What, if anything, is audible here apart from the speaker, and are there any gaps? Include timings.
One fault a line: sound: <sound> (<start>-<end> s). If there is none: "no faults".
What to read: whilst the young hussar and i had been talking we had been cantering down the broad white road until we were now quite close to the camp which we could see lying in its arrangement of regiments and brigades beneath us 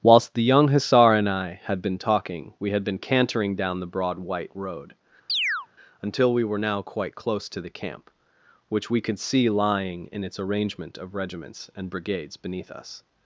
sound: chirp (5.3-5.7 s)